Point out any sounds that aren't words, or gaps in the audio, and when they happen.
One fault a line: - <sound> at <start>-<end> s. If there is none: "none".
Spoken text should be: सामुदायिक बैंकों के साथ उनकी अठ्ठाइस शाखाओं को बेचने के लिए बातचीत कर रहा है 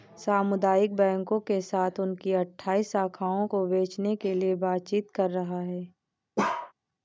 - bark at 6.4-6.7 s